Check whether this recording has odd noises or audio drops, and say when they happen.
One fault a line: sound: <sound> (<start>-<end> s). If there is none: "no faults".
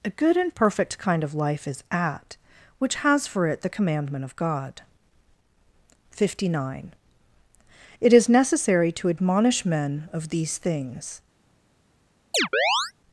sound: chirp (12.3-12.9 s)